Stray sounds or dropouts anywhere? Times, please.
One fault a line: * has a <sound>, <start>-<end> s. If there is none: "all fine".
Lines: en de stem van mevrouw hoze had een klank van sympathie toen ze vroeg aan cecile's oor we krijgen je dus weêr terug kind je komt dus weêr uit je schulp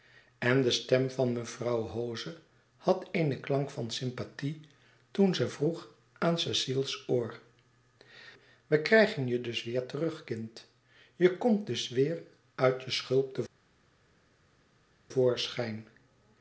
all fine